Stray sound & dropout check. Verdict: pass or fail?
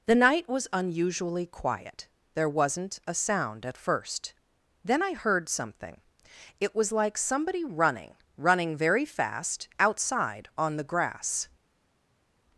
pass